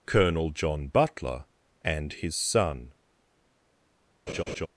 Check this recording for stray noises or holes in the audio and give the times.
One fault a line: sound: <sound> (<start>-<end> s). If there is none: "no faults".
sound: laugh (4.3-4.7 s)